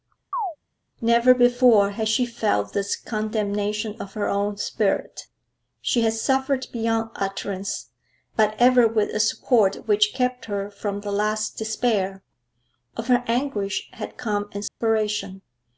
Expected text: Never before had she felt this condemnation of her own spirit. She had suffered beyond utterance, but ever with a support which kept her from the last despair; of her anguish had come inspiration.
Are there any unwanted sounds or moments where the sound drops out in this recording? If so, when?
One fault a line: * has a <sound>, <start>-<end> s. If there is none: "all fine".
* has a chirp, 0.3-0.6 s
* has a dropout, 14.7-14.8 s